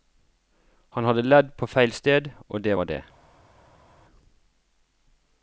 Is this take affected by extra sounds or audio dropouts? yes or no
no